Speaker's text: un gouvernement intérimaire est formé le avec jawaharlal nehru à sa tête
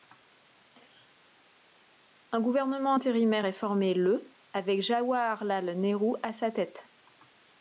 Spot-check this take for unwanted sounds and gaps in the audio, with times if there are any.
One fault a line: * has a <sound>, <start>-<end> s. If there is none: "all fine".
all fine